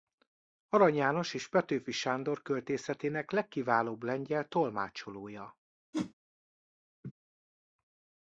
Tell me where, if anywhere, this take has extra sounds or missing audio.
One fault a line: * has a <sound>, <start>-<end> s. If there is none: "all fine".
* has a whoosh, 5.9-6.1 s
* has a laugh, 7.0-7.1 s